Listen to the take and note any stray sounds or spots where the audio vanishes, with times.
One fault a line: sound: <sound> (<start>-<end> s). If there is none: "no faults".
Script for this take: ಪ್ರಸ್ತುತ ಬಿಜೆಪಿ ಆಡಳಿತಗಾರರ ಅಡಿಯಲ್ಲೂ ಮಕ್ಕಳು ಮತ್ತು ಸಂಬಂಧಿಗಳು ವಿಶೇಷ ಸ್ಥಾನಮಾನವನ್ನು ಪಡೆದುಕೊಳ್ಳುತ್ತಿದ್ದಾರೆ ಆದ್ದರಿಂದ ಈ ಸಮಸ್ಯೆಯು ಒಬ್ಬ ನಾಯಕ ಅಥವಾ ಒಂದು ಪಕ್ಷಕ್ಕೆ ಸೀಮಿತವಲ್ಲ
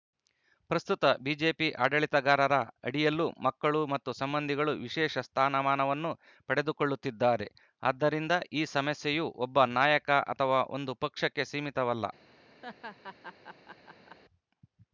sound: laugh (12.6-14.2 s)